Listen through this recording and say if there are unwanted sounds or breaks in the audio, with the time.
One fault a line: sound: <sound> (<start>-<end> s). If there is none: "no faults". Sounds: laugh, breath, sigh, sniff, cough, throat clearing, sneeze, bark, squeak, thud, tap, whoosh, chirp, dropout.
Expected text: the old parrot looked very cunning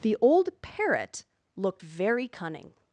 no faults